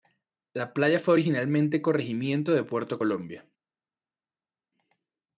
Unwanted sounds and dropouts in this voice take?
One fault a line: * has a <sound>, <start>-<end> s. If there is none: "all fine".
all fine